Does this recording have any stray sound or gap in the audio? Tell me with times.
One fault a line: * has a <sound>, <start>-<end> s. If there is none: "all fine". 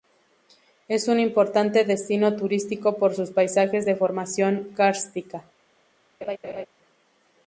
* has a laugh, 6.2-6.7 s